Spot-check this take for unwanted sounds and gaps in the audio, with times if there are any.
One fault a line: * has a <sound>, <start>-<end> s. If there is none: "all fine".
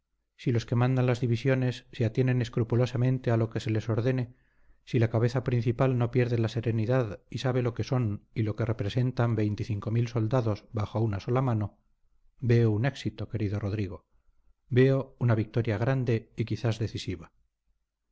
all fine